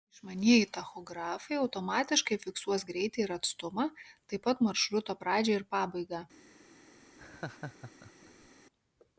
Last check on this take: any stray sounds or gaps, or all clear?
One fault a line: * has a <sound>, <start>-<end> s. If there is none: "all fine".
* has a laugh, 7.2-8.5 s